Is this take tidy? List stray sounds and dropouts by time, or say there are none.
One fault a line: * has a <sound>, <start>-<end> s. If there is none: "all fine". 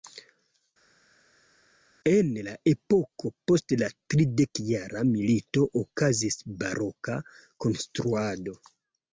all fine